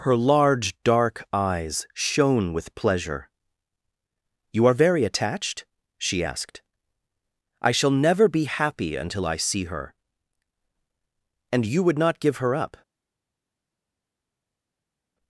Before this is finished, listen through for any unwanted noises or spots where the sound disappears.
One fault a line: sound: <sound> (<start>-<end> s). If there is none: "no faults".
no faults